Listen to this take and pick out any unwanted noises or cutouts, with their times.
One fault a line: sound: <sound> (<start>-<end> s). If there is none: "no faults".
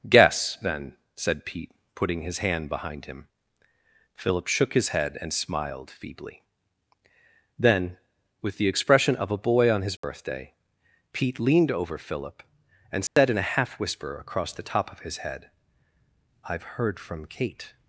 sound: dropout (10.0-10.0 s)
sound: dropout (13.1-13.2 s)